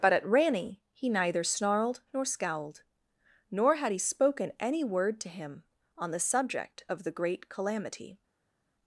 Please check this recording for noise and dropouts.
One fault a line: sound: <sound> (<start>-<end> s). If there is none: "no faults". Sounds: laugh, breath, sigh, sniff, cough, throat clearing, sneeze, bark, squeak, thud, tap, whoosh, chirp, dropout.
no faults